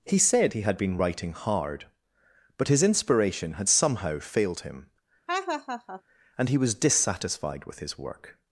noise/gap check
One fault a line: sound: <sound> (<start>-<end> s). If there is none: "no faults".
sound: laugh (5.3-6.0 s)